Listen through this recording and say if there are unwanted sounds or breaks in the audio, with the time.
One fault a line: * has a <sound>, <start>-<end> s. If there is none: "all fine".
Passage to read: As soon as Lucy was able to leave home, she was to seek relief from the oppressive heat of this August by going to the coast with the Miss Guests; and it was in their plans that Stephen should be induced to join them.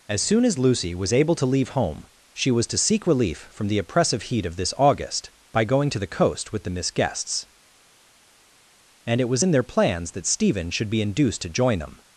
all fine